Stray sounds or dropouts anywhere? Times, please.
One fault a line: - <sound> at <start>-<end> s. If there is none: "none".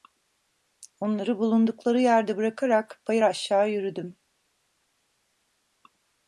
none